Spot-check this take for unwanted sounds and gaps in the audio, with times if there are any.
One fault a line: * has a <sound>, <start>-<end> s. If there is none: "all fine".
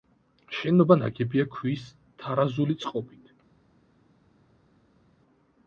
all fine